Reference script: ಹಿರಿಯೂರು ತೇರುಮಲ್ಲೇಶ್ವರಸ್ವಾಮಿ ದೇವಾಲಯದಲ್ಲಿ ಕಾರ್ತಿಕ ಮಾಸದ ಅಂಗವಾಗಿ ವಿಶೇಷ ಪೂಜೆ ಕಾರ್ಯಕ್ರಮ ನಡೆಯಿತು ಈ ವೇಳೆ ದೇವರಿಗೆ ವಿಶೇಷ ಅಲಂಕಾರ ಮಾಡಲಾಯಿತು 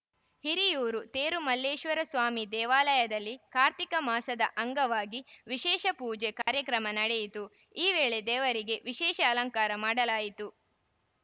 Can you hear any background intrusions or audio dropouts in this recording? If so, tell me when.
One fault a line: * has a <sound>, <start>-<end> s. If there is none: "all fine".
* has a dropout, 6.4-6.5 s